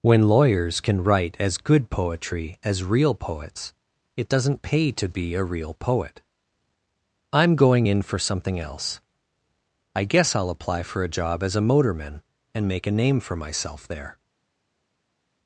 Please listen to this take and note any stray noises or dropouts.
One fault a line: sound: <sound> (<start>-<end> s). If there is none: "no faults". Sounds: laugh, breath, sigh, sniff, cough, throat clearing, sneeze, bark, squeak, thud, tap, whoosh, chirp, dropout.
no faults